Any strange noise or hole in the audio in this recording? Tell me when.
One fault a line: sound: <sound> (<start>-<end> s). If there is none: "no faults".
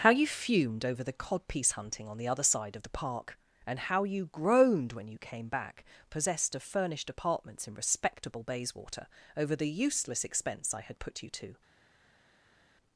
no faults